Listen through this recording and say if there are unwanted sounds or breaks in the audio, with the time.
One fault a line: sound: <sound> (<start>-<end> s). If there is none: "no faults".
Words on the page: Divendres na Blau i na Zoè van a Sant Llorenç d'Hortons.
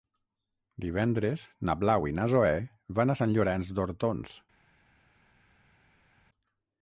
no faults